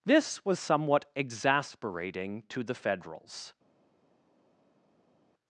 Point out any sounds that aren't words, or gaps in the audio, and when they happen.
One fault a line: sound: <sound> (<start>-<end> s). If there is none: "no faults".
no faults